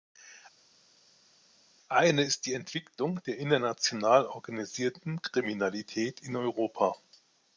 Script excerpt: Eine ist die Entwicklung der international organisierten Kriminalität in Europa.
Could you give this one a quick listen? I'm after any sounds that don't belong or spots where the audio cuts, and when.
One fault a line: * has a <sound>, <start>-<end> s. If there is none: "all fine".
all fine